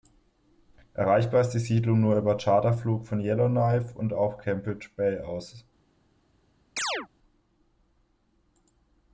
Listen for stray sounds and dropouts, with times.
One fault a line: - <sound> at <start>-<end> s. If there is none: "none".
- chirp at 6.8-7.1 s